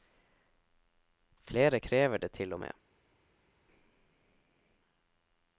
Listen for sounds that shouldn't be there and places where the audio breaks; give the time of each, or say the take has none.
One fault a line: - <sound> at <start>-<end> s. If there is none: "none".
none